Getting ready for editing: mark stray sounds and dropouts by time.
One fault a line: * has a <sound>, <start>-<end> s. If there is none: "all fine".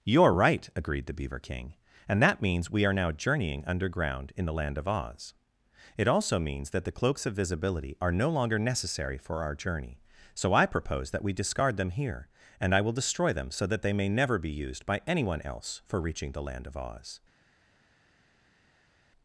all fine